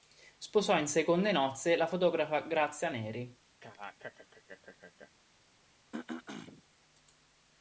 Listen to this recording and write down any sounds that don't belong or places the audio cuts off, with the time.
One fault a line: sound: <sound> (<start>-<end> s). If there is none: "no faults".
sound: laugh (3.6-5.1 s)
sound: throat clearing (5.9-6.6 s)